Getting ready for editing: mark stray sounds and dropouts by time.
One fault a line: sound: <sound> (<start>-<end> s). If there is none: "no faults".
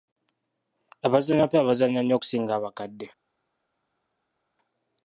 no faults